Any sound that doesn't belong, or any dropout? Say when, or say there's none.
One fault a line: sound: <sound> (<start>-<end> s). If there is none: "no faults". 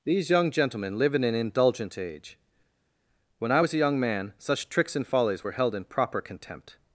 no faults